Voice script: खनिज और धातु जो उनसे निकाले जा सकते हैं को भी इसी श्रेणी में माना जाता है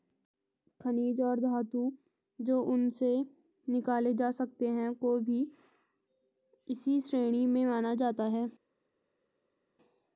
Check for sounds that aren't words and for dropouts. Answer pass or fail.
pass